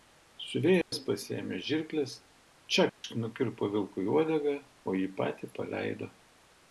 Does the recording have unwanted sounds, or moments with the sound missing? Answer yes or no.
yes